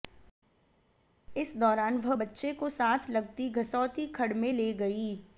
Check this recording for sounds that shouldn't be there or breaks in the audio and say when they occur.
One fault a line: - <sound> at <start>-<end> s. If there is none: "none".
none